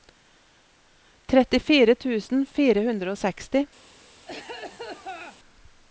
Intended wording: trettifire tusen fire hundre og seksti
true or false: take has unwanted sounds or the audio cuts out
true